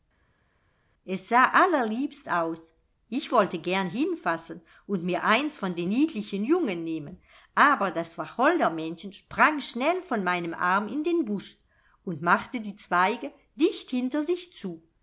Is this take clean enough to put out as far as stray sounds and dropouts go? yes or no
yes